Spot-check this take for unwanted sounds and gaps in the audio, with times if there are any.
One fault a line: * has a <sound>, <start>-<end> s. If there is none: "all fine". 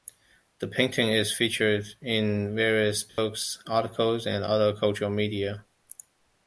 * has a dropout, 3.1-3.2 s